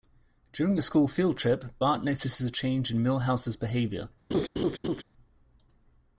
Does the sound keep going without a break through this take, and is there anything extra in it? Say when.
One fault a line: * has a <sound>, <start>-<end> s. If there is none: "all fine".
* has a laugh, 4.3-5.0 s